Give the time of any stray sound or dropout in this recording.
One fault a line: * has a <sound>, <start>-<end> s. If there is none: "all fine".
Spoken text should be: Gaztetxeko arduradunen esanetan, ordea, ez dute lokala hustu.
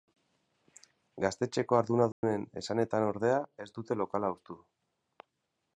* has a dropout, 2.1-2.2 s